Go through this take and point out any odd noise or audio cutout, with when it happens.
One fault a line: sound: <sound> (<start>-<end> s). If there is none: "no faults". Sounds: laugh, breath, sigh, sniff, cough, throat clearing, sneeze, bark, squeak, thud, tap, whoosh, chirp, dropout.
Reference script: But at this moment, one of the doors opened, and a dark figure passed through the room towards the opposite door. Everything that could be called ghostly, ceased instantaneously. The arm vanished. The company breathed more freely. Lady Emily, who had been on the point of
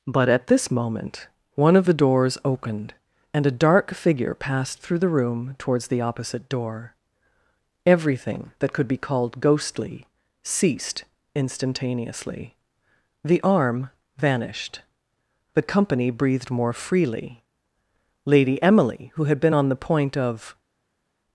no faults